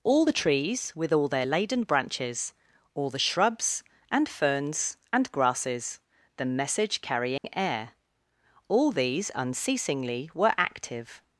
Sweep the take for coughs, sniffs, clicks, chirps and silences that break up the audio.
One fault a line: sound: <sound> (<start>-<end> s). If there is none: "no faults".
sound: dropout (7.4-7.4 s)